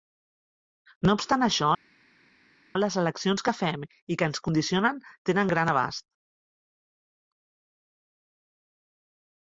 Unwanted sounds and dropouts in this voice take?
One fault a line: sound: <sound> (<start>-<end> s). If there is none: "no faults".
no faults